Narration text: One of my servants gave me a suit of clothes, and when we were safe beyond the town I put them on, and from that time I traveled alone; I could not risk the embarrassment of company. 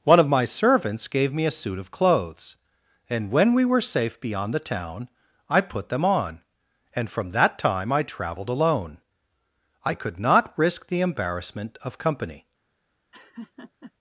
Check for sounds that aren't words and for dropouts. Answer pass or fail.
fail